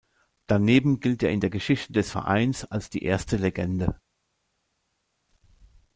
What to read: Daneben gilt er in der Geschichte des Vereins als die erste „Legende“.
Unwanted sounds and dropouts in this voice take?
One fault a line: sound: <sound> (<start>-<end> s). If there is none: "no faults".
no faults